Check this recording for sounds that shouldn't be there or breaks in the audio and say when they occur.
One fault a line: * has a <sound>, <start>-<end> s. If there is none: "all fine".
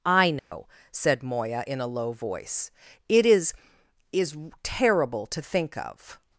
* has a dropout, 0.4-0.5 s